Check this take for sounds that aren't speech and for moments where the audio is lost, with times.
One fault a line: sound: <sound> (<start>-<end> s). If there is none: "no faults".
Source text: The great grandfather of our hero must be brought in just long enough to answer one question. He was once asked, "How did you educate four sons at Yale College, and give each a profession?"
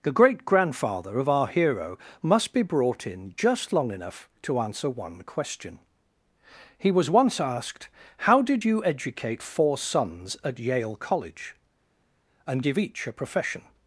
no faults